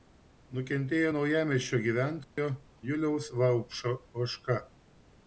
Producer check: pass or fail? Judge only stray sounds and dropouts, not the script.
fail